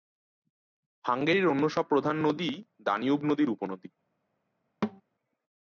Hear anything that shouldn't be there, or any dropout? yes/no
yes